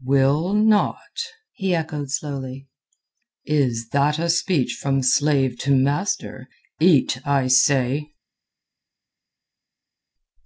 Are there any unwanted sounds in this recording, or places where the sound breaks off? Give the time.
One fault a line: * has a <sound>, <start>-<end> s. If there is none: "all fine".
all fine